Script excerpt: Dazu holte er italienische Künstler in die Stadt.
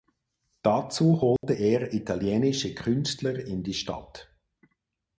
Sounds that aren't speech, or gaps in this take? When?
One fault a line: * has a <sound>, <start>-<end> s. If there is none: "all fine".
* has a dropout, 1.4-1.4 s